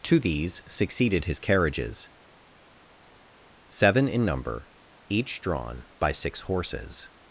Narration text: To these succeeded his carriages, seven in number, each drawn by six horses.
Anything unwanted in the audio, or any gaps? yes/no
no